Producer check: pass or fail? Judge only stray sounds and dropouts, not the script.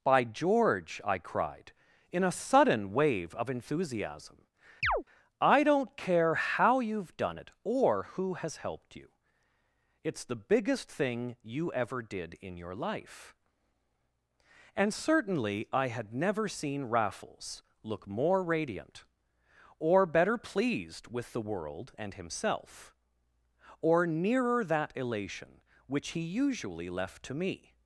fail